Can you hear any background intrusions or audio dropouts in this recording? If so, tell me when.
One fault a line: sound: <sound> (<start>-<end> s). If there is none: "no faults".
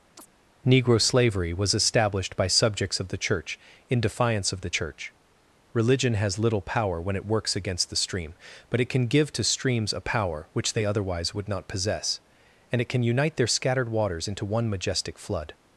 sound: chirp (0.2-0.3 s)